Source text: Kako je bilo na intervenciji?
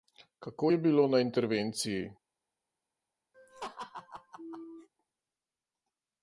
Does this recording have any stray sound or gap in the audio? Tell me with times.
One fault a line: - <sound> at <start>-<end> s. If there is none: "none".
- laugh at 3.3-4.9 s